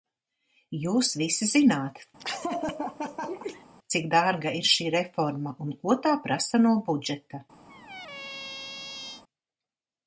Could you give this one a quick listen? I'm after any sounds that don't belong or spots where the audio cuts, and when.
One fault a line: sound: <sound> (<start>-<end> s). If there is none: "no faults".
sound: laugh (2.2-3.6 s)
sound: squeak (7.7-9.2 s)